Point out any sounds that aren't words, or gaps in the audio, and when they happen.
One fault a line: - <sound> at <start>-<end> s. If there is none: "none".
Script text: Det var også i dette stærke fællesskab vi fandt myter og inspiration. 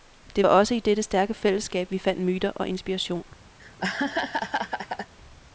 - laugh at 3.6-5.1 s